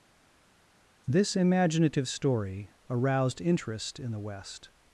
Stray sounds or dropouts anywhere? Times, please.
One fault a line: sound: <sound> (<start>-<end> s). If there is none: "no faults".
no faults